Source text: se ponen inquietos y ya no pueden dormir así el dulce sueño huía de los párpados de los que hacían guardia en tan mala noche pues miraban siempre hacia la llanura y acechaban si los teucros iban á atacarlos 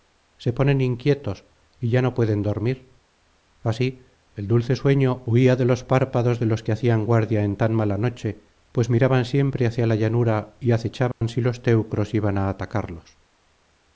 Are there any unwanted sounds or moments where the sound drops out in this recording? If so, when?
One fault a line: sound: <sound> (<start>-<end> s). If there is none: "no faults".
sound: dropout (11.1-11.2 s)